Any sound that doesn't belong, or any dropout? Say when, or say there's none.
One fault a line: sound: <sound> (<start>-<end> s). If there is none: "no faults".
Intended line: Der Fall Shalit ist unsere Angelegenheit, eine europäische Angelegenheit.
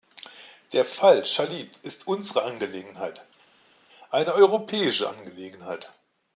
no faults